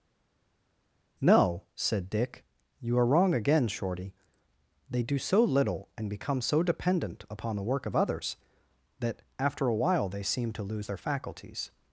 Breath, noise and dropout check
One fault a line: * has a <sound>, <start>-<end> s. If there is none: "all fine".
all fine